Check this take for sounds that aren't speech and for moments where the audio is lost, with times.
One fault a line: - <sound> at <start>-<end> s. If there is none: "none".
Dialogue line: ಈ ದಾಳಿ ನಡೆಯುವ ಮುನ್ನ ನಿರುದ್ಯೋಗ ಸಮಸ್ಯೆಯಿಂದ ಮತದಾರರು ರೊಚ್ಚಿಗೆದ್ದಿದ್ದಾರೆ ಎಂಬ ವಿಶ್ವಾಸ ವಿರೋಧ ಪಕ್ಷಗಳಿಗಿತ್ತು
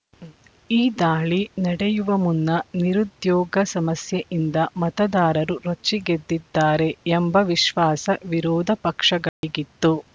- dropout at 9.3-9.4 s